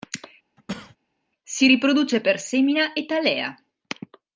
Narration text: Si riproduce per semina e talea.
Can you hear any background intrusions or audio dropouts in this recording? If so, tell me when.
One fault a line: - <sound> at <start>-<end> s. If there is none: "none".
- cough at 0.6-1.0 s